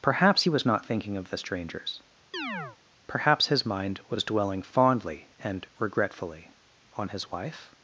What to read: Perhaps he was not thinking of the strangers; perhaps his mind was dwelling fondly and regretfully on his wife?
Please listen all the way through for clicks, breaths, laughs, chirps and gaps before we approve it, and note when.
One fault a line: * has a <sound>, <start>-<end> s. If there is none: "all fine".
* has a chirp, 2.3-2.8 s